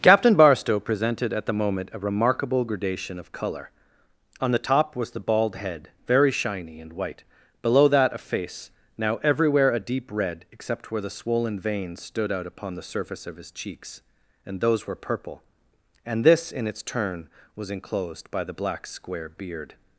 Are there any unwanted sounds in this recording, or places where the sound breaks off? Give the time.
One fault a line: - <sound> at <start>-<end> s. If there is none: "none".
none